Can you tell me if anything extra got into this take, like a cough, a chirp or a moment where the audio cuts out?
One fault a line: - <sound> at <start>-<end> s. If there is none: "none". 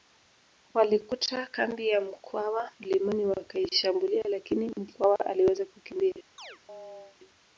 - chirp at 6.4-7.2 s